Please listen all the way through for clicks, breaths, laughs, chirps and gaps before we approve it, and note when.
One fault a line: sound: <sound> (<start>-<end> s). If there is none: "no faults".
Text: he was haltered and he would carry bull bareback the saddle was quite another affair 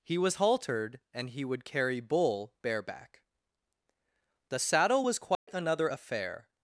sound: dropout (5.3-5.5 s)